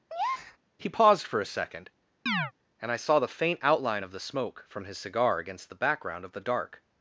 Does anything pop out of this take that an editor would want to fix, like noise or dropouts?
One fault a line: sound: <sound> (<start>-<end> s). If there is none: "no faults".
sound: breath (0.1-0.6 s)
sound: chirp (2.3-2.5 s)